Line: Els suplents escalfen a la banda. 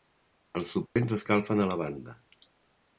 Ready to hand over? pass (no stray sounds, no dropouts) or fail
fail